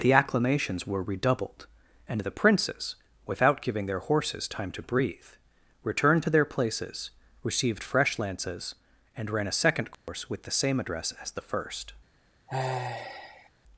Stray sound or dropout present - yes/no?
yes